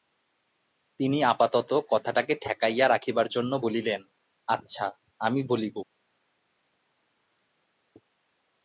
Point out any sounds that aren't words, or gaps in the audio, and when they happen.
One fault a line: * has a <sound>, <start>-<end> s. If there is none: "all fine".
all fine